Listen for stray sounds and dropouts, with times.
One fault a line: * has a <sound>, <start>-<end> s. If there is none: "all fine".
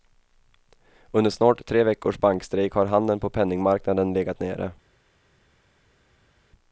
all fine